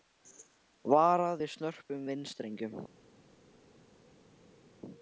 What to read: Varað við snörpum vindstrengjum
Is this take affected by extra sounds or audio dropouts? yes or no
no